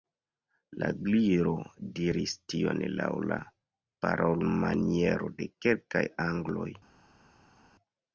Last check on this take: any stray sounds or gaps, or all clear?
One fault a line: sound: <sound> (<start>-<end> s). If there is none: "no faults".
no faults